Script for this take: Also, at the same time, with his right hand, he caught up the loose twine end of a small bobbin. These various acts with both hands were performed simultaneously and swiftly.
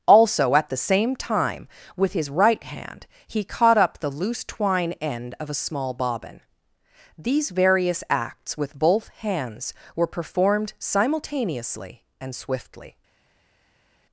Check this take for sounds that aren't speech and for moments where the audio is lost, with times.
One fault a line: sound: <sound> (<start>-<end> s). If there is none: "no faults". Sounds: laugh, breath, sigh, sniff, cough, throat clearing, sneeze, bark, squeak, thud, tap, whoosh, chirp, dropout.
no faults